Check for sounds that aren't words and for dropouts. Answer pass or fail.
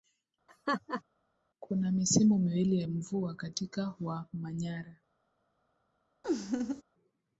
fail